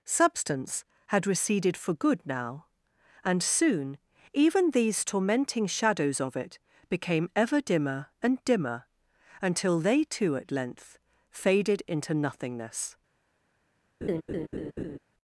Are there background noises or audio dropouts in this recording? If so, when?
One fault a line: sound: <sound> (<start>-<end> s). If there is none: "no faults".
sound: laugh (14.0-15.0 s)